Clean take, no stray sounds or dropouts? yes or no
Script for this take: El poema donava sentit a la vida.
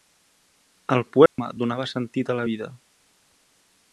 no